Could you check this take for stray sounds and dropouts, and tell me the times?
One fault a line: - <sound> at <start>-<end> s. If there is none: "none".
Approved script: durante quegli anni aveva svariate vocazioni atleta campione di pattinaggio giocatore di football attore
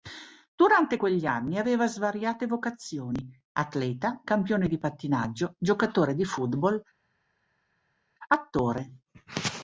none